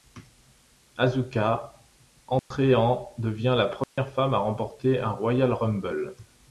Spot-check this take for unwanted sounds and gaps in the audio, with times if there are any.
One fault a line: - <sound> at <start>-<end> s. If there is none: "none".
- dropout at 2.4-2.5 s
- dropout at 3.8-4.0 s